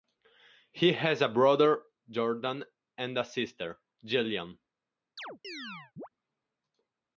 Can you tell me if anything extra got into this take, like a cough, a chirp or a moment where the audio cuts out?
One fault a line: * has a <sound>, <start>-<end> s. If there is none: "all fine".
* has a chirp, 5.2-6.1 s